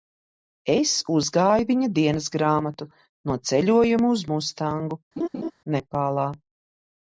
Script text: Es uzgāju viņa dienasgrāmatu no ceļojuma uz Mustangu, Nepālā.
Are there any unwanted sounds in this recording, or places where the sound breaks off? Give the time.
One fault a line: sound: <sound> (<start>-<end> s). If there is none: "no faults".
sound: laugh (5.2-5.5 s)